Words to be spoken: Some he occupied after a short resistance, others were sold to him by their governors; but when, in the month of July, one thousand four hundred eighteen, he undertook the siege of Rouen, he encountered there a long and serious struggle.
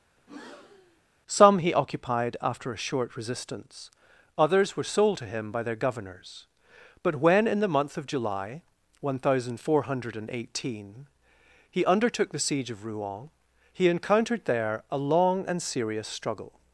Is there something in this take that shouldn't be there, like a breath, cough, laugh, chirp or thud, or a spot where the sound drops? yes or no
yes